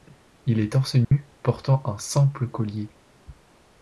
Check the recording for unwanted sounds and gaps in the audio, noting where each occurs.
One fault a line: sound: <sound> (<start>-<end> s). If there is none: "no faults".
sound: dropout (1.0-1.1 s)